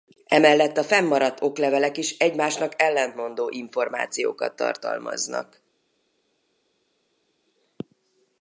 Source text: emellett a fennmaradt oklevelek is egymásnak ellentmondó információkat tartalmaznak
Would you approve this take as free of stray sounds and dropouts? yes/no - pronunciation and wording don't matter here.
yes